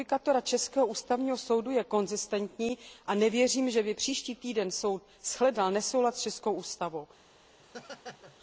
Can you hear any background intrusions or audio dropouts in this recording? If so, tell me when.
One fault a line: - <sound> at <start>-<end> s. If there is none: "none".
- laugh at 7.6-8.4 s